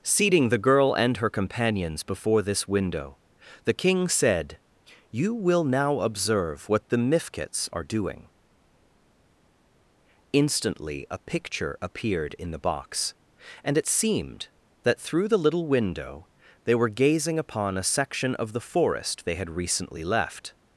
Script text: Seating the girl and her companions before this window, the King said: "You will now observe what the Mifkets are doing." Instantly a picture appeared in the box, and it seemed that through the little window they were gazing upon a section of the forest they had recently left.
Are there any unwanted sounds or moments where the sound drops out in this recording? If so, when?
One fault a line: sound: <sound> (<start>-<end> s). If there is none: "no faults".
no faults